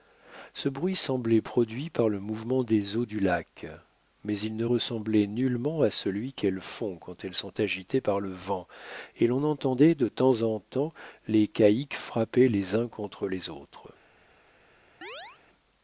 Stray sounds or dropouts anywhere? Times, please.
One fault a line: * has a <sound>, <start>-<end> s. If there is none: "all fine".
* has a chirp, 15.0-15.4 s